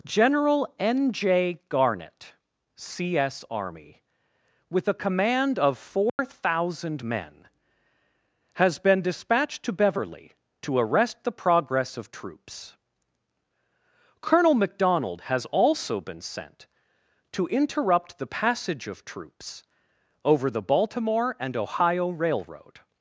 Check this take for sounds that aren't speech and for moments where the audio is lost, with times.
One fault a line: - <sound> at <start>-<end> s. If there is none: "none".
- dropout at 6.1-6.2 s